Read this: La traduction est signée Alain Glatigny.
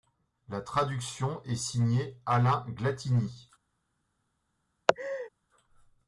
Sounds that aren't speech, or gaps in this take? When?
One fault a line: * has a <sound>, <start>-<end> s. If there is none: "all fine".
* has a laugh, 4.9-5.3 s